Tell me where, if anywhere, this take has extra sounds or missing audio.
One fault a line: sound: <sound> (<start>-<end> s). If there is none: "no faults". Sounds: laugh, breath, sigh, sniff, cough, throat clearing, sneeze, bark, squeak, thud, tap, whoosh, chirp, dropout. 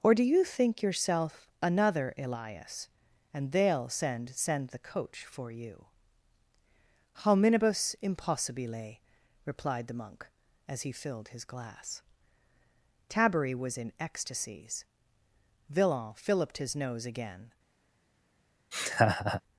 sound: laugh (18.7-19.4 s)